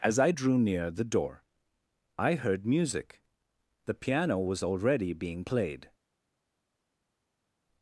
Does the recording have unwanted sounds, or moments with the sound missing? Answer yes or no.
no